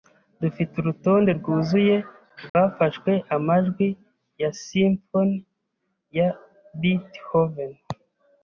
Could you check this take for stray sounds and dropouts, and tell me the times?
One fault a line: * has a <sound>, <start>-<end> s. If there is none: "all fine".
* has a dropout, 2.5-2.5 s